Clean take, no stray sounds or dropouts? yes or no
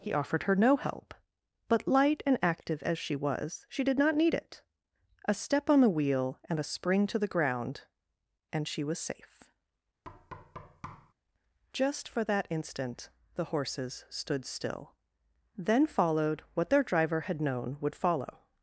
no